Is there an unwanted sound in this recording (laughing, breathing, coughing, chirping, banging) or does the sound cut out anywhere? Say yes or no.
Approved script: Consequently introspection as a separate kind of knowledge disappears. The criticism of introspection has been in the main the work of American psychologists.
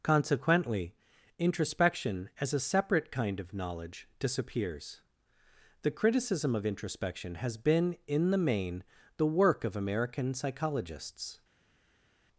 no